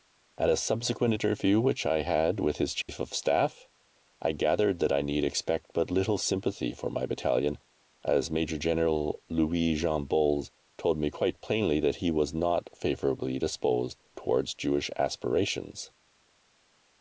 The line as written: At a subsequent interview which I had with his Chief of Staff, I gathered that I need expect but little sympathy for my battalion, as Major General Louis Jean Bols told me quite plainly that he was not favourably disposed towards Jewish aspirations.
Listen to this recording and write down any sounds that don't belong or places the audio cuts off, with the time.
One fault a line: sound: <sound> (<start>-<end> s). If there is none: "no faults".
sound: dropout (2.8-2.9 s)